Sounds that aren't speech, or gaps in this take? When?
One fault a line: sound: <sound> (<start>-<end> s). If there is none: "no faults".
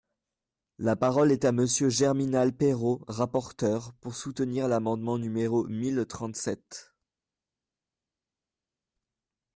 no faults